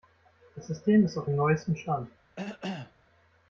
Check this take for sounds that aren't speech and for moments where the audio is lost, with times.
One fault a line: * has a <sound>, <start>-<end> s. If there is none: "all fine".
* has a cough, 2.4-2.9 s